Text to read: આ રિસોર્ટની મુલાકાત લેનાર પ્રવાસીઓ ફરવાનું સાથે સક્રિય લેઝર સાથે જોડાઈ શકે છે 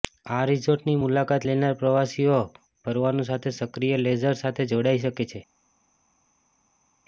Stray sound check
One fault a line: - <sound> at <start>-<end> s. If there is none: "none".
none